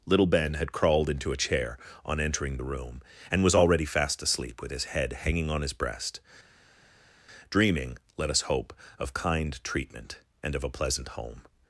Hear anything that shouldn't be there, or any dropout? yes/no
no